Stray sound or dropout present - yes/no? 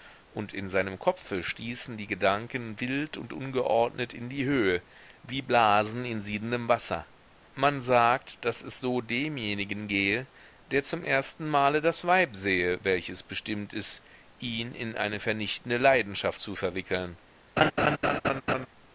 yes